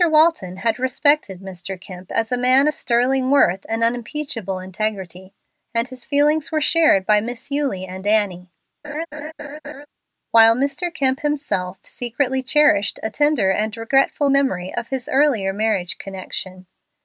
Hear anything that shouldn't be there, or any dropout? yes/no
yes